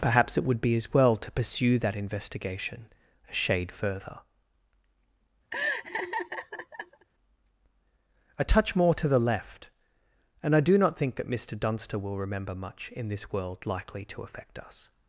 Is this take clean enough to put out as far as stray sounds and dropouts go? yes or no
no